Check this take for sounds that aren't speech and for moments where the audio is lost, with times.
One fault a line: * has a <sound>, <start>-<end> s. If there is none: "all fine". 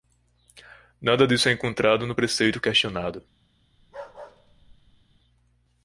* has a bark, 3.8-5.2 s